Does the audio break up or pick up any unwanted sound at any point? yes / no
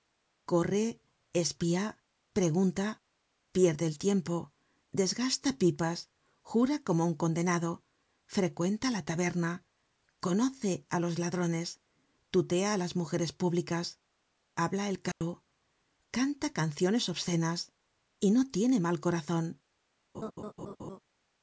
yes